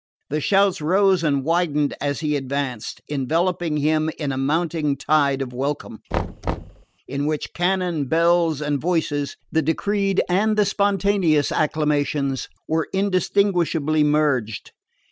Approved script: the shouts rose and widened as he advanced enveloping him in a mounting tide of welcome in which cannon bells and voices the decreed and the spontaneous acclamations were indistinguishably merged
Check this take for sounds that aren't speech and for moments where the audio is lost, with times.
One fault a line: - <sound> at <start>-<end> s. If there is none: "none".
- thud at 6.1-6.9 s